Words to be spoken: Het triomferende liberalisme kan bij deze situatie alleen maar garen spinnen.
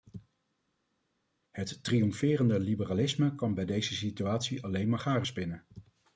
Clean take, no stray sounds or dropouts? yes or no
yes